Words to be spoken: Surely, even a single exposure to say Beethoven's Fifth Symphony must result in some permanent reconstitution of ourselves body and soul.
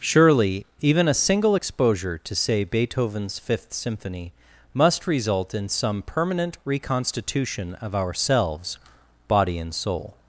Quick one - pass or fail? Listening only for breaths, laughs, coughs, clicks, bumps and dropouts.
pass